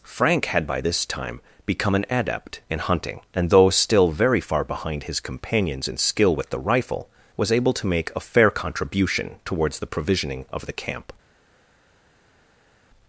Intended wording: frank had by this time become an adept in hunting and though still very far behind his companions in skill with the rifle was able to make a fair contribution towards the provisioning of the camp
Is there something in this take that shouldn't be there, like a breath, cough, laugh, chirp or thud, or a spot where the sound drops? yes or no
no